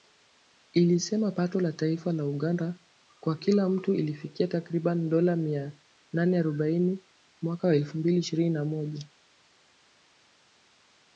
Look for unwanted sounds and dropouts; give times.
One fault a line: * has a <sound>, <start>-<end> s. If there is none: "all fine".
all fine